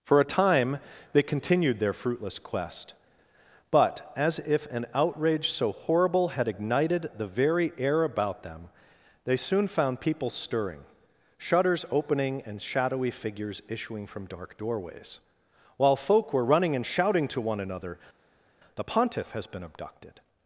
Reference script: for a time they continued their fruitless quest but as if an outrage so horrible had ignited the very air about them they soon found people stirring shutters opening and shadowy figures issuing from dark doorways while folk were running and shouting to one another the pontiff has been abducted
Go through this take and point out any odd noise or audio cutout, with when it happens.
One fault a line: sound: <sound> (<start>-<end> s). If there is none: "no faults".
no faults